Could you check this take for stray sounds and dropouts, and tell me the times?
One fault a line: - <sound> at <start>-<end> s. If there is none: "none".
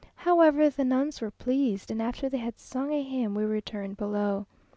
none